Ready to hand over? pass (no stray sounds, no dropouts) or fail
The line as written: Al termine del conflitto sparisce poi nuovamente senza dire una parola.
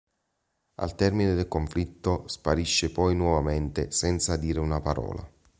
pass